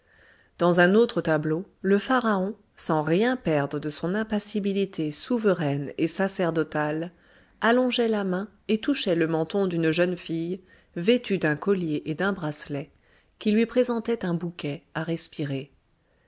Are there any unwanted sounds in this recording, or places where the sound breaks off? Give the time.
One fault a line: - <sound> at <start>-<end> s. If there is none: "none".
none